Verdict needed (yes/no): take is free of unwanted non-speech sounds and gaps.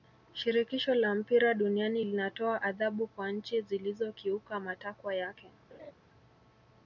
no